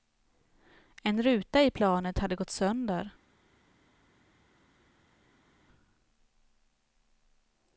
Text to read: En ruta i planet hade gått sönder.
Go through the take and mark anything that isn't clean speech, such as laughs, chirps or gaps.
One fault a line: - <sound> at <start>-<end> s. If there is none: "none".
none